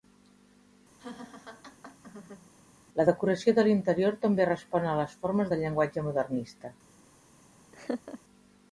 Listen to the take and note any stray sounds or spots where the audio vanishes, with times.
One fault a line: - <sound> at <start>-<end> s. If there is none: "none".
- laugh at 1.0-2.5 s
- laugh at 7.7-8.2 s